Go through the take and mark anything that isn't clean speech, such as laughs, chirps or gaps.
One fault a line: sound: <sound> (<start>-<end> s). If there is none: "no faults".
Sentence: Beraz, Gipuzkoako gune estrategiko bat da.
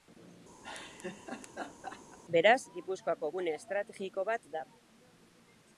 sound: laugh (0.6-2.2 s)